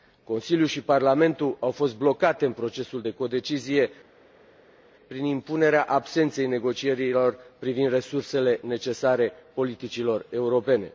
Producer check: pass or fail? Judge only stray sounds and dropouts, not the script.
pass